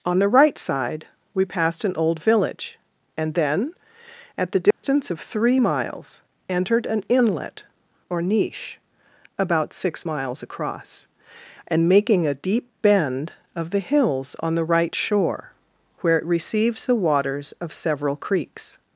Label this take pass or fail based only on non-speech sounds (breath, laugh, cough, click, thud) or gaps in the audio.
fail